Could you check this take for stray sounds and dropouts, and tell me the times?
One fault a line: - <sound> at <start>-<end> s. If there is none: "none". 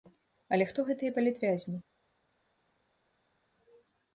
none